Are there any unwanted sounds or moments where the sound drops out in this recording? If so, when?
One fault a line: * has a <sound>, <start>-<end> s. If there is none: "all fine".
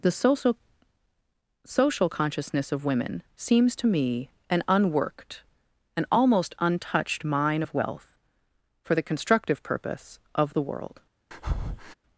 * has a breath, 11.3-11.9 s